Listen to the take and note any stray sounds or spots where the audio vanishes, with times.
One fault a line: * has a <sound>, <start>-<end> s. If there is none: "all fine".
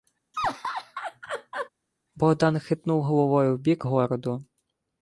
* has a laugh, 0.3-1.7 s